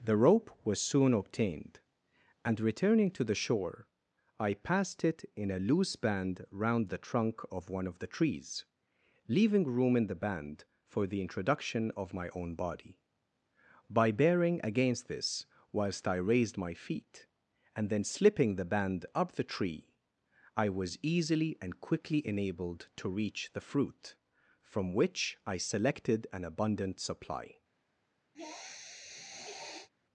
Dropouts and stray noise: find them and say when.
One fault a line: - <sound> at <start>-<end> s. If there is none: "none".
- sniff at 28.3-29.9 s